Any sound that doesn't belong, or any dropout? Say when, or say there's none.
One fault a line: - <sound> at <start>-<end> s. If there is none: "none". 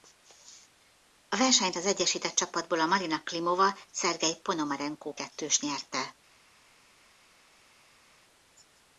none